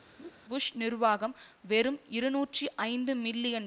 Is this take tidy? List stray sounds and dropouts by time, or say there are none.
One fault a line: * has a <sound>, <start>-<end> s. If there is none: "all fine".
* has a laugh, 0.2-0.3 s